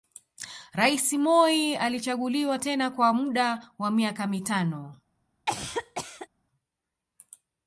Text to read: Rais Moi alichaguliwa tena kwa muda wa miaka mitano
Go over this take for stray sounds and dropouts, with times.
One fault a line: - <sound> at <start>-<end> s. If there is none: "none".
- cough at 5.5-6.3 s